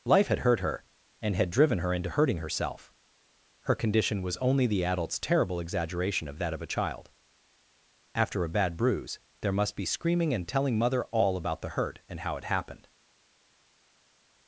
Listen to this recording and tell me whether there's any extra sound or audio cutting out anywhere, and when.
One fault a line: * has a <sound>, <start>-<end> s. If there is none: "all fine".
all fine